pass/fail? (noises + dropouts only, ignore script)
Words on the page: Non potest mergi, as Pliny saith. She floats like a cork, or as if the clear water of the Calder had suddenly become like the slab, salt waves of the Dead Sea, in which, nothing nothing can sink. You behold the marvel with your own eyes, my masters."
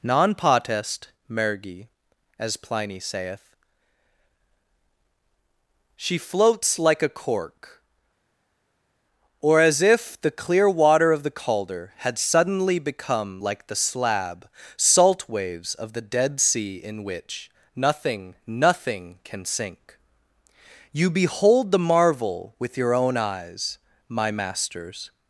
pass